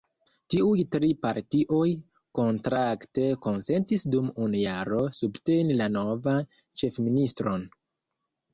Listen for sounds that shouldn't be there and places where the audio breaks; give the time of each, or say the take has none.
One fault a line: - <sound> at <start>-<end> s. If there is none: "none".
none